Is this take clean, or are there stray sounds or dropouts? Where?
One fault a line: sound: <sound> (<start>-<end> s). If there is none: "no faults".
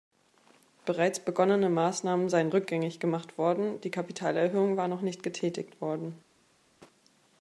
no faults